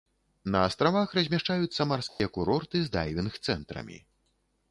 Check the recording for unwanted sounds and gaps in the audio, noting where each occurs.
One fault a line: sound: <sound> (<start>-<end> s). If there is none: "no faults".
sound: dropout (2.1-2.2 s)